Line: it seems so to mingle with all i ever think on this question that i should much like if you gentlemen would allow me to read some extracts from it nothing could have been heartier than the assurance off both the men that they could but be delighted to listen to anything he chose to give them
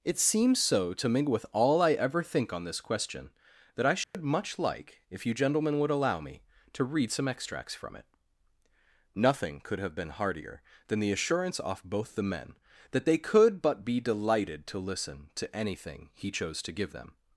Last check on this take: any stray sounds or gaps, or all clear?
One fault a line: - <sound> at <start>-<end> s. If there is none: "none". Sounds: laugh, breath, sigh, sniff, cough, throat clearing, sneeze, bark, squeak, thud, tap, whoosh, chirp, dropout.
- dropout at 4.0-4.1 s